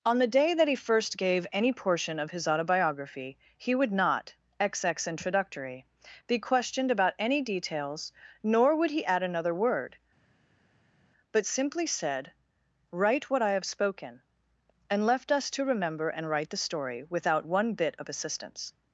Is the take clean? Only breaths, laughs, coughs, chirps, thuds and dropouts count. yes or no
yes